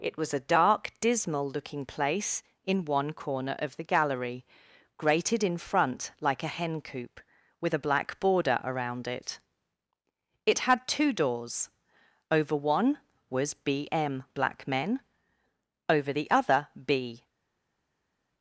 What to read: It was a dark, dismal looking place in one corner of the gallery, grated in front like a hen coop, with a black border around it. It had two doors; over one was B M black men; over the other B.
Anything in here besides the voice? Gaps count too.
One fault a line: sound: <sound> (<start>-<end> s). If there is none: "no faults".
no faults